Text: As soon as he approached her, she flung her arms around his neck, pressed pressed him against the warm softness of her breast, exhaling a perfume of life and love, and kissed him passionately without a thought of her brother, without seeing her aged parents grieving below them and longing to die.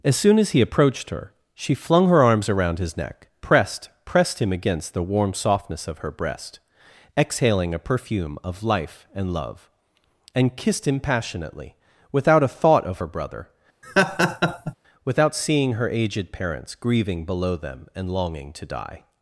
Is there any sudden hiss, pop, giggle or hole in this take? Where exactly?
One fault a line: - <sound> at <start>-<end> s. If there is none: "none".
- laugh at 13.8-14.7 s